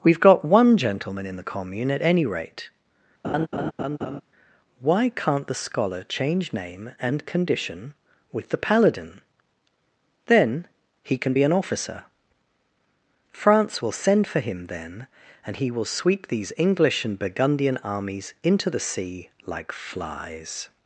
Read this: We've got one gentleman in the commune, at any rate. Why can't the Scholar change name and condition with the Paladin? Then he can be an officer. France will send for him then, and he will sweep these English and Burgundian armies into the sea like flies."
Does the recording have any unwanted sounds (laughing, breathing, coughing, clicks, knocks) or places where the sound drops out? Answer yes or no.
yes